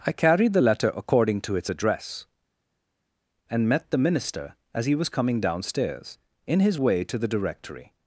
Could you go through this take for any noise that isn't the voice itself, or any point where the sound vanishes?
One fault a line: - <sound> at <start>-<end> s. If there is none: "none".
none